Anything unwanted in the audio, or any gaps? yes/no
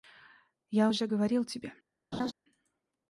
yes